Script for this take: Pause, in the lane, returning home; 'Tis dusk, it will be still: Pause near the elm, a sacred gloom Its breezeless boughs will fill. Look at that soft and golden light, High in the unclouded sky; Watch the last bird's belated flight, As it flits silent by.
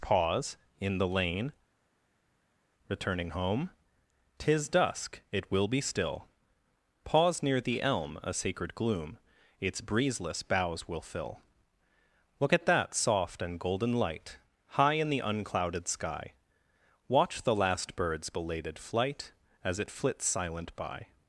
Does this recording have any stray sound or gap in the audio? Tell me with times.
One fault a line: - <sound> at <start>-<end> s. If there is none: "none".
none